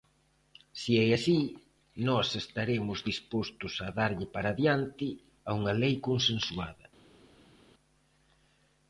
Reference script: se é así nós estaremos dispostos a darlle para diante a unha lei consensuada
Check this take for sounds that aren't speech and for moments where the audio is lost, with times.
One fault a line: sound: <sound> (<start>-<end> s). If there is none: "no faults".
no faults